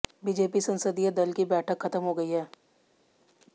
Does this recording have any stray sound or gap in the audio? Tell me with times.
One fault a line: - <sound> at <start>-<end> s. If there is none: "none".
none